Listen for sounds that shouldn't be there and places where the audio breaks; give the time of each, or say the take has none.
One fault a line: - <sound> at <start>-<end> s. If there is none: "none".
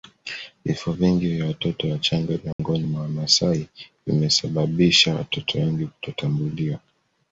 - dropout at 2.5-2.6 s